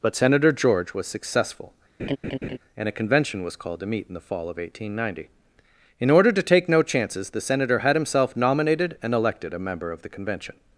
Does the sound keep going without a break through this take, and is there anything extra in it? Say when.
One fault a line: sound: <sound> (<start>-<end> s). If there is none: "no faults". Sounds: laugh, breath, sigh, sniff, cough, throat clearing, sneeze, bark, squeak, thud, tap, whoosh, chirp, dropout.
sound: laugh (2.0-2.6 s)